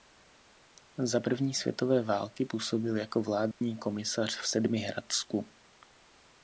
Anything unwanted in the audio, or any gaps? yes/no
yes